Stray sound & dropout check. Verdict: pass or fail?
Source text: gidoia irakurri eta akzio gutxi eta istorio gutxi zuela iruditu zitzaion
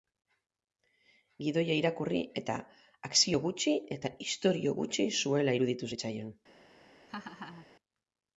fail